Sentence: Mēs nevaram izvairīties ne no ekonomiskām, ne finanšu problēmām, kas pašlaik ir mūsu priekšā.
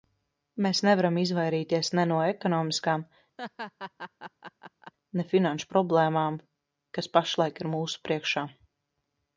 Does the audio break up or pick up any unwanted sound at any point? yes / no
yes